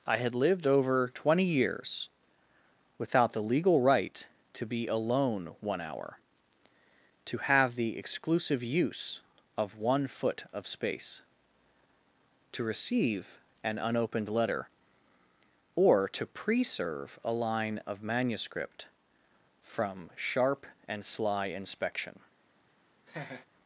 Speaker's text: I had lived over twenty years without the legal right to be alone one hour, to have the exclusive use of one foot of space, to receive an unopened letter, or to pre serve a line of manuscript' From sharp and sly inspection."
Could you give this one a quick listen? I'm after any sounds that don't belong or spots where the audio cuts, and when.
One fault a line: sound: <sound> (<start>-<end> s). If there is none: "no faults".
sound: laugh (23.1-23.5 s)